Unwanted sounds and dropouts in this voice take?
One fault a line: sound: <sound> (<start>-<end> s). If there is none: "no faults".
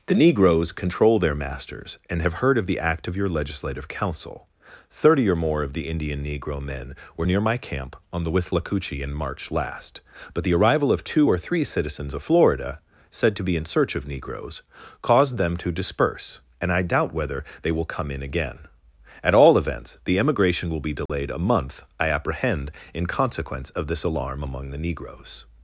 sound: dropout (21.1-21.1 s)